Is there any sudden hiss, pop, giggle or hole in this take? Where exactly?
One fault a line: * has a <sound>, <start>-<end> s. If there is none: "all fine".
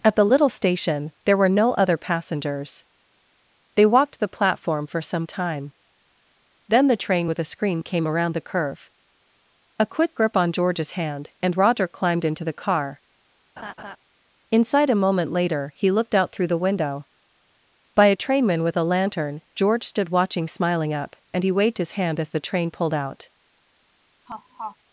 * has a laugh, 13.6-14.0 s
* has a laugh, 24.3-24.8 s